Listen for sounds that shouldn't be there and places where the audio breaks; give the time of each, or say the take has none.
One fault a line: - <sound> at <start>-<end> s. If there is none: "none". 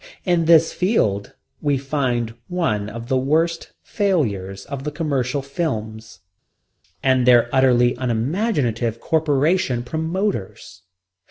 none